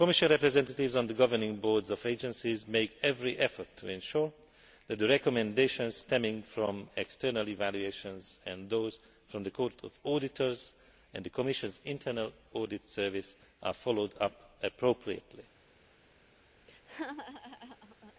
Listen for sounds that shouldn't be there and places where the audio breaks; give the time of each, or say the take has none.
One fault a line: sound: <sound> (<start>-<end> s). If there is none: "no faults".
sound: laugh (16.7-18.1 s)